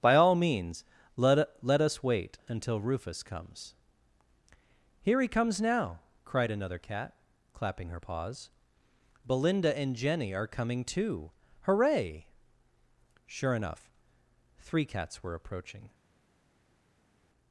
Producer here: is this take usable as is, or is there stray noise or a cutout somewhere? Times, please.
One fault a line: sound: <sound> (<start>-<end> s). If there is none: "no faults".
no faults